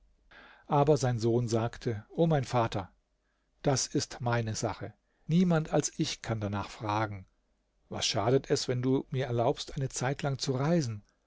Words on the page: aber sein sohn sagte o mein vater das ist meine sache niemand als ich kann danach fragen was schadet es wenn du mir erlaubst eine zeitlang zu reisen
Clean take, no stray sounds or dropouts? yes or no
yes